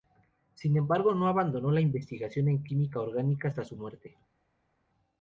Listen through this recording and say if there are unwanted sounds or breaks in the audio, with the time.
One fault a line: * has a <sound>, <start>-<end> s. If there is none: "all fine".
all fine